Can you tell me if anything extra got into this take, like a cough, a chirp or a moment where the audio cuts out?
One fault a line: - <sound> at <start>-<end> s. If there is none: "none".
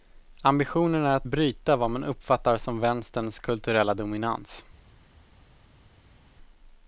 none